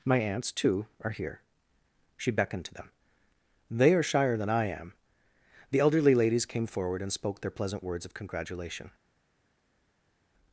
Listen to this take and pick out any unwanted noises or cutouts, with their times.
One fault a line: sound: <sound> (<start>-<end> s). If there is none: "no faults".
no faults